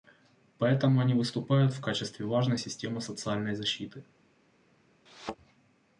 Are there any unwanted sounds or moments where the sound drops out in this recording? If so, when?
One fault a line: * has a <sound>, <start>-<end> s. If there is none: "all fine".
* has a thud, 5.1-5.4 s